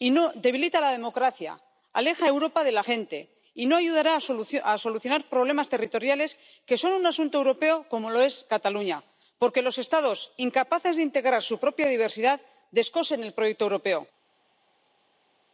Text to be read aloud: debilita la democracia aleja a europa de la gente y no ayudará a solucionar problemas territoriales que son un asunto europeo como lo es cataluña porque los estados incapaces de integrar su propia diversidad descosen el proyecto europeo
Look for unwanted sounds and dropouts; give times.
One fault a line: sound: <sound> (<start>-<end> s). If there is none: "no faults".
no faults